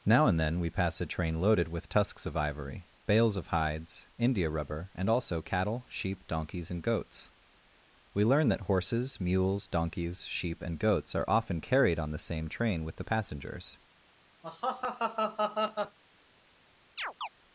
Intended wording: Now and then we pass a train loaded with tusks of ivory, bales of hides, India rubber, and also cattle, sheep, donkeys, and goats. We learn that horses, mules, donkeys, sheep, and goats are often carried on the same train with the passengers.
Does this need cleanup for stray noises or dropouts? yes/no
yes